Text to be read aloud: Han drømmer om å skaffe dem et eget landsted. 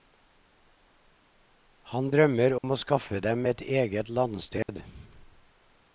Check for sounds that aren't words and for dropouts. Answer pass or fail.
fail